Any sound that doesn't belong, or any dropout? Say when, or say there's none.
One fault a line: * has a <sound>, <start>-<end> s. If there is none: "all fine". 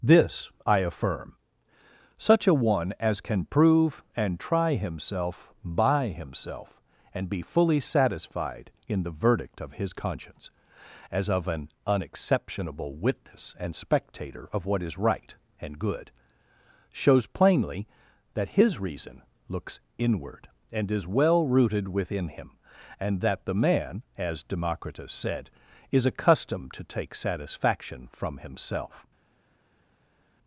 all fine